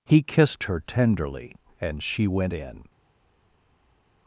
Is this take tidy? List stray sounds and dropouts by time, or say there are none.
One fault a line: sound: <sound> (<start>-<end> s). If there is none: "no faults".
no faults